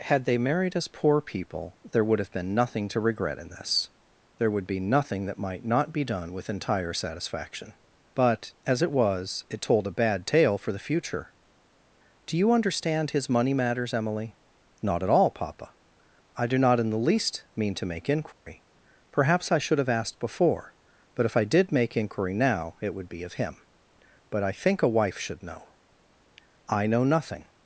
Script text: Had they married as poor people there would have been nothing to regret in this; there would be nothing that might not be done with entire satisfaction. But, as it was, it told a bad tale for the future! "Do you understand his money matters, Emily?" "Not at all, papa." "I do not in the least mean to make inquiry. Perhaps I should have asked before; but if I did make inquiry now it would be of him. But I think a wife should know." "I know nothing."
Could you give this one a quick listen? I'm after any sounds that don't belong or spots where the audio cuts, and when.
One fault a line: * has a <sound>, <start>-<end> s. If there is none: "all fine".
* has a dropout, 18.3-18.5 s